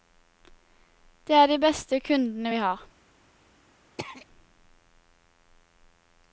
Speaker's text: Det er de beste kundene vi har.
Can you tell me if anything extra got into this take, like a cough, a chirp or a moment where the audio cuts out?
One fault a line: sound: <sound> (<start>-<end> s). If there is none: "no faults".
sound: throat clearing (4.0-4.3 s)